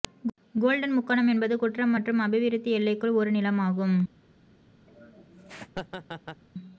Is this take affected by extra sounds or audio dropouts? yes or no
yes